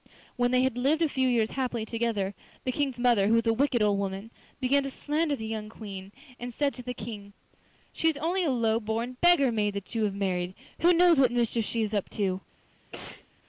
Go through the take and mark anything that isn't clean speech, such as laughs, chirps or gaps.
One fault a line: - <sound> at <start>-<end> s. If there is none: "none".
- sneeze at 12.9-13.3 s